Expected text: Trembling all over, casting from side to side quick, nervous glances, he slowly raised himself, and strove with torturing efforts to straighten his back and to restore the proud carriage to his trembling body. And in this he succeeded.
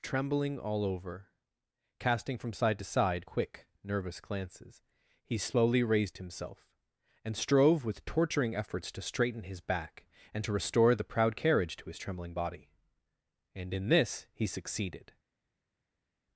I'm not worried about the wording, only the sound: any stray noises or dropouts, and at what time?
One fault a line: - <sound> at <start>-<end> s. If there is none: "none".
none